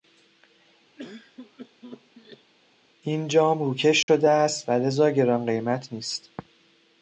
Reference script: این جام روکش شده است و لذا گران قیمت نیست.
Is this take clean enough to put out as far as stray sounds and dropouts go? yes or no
no